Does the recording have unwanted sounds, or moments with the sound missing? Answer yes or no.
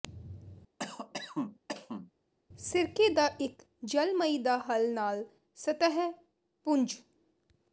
yes